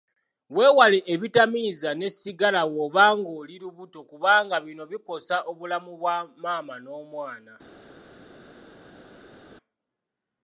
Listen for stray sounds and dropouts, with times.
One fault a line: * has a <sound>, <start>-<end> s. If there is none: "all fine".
all fine